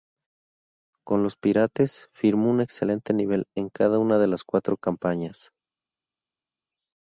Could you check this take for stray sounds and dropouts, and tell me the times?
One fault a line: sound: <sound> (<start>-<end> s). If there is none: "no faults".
no faults